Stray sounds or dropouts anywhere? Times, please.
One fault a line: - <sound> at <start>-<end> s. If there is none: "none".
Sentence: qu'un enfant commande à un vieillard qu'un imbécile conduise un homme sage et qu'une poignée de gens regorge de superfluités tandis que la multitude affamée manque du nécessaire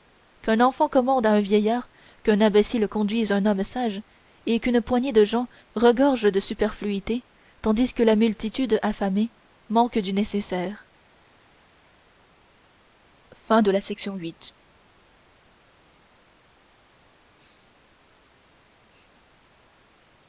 none